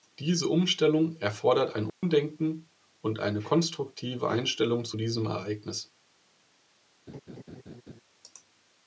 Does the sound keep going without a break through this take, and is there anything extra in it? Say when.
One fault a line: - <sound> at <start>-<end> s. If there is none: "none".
- dropout at 1.9-2.0 s
- laugh at 7.1-8.0 s